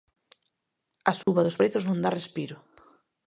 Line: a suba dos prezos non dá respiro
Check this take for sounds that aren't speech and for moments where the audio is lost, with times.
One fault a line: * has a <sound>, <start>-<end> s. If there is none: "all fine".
* has a dropout, 1.2-1.3 s